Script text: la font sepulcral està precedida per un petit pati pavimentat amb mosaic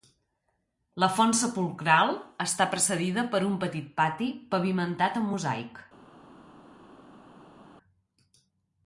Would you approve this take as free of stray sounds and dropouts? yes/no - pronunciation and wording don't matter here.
yes